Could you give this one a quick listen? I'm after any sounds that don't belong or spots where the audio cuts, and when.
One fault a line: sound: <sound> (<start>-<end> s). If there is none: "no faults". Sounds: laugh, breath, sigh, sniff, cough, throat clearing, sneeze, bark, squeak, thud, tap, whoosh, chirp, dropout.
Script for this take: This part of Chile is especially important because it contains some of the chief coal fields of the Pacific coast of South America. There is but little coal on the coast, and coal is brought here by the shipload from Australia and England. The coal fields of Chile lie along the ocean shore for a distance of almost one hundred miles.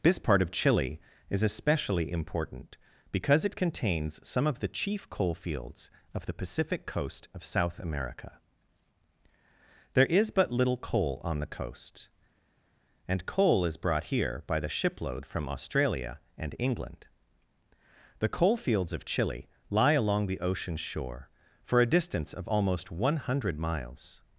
no faults